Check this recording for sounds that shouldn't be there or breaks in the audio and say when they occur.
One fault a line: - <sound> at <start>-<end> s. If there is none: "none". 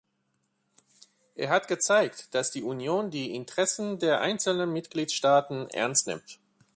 none